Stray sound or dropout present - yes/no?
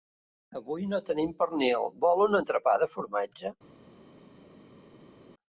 no